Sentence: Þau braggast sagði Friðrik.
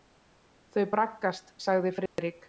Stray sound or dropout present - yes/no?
yes